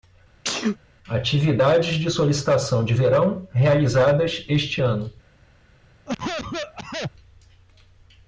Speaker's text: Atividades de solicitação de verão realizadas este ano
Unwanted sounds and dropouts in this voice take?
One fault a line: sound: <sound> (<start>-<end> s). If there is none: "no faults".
sound: sneeze (0.4-0.8 s)
sound: cough (6.1-7.1 s)